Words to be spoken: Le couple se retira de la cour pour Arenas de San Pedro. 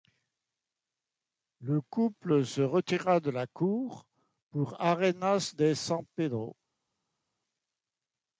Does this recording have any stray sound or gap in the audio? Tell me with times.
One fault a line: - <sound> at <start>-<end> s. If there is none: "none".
none